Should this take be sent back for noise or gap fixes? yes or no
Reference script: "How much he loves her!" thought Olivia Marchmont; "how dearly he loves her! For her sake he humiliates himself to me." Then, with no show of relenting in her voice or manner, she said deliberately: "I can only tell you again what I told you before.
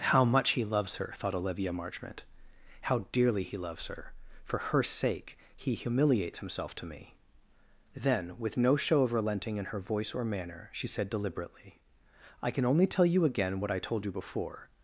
no